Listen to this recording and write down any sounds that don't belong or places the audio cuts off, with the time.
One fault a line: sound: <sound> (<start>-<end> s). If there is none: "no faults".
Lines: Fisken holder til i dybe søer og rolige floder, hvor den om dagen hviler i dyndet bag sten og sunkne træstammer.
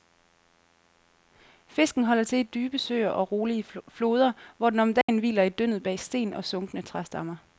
sound: dropout (5.0-5.1 s)